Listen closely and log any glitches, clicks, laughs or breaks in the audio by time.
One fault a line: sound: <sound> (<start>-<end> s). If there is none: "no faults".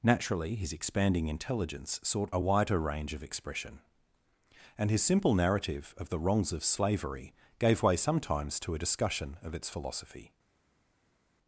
no faults